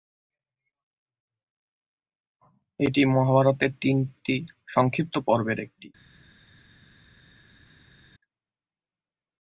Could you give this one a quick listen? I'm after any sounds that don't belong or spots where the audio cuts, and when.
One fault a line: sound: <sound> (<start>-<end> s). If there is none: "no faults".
no faults